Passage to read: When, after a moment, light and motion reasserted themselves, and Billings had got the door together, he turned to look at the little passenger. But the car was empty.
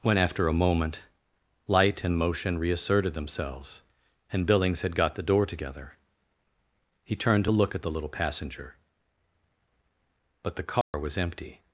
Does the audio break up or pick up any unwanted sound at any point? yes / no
yes